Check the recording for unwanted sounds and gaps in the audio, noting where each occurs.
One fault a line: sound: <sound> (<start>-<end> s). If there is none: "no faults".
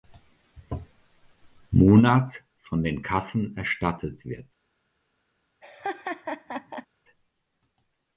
sound: laugh (5.6-6.9 s)